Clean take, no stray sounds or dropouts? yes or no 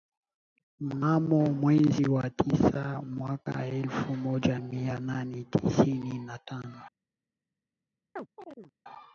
no